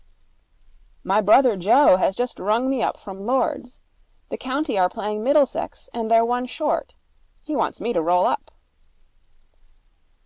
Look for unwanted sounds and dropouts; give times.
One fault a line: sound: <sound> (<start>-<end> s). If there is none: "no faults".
no faults